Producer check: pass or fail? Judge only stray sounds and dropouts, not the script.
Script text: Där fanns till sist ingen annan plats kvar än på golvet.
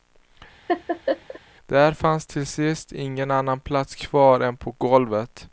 fail